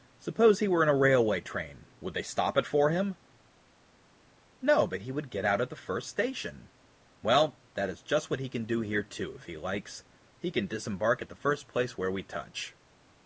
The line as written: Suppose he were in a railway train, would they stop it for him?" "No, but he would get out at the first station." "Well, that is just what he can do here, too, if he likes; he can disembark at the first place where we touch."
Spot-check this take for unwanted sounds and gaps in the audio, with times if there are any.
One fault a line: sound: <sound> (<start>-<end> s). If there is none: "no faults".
no faults